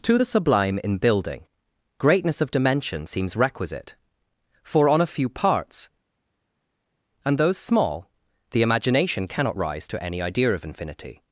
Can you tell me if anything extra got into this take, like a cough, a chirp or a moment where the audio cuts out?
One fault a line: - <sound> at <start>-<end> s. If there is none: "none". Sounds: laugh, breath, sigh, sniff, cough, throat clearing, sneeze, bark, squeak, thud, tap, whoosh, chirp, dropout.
none